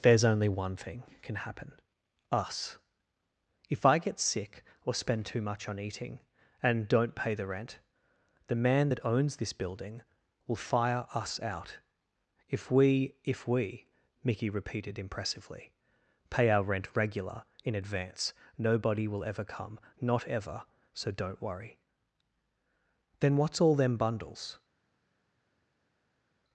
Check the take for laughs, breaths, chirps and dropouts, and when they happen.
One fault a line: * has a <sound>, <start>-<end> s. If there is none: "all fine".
all fine